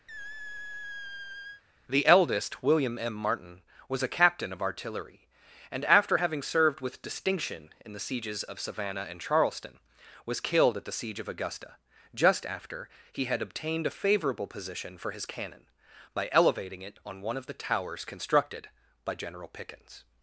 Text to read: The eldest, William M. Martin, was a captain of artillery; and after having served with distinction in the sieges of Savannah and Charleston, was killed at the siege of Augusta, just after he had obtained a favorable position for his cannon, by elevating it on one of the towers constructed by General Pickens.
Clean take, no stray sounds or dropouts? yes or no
no